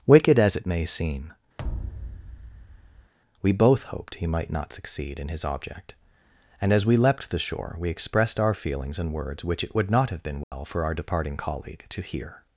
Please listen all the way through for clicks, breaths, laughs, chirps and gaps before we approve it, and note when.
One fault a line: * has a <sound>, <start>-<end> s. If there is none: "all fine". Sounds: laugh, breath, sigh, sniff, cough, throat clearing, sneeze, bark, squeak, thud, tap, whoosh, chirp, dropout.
* has a thud, 1.6-3.1 s
* has a dropout, 10.4-10.5 s